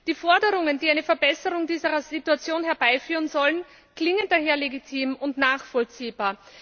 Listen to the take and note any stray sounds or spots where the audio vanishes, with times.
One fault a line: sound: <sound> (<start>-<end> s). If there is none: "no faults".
no faults